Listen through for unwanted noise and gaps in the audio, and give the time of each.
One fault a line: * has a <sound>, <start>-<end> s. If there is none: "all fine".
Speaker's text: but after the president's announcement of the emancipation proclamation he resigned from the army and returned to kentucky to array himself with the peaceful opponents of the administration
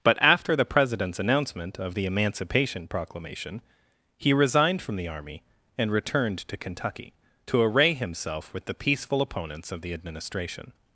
all fine